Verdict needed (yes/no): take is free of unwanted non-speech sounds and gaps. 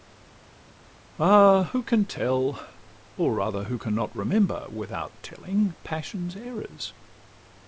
yes